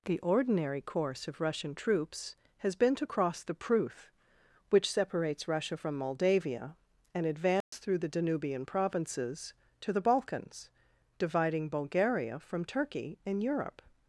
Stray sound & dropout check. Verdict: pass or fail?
fail